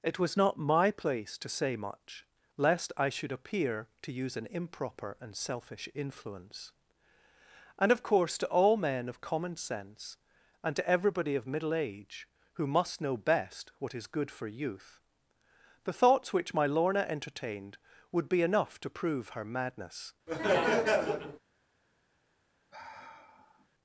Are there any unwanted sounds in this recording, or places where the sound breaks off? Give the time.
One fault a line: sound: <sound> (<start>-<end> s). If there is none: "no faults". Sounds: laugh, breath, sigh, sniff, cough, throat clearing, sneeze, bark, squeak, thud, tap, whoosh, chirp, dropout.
sound: laugh (20.3-21.4 s)
sound: sigh (22.7-23.7 s)